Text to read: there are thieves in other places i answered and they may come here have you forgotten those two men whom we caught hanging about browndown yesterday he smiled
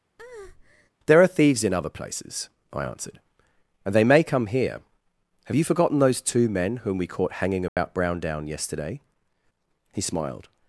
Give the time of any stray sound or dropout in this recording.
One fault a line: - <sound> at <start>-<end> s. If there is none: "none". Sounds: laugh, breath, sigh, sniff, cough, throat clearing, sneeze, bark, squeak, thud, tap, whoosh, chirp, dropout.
- breath at 0.2-0.9 s
- dropout at 7.7-7.8 s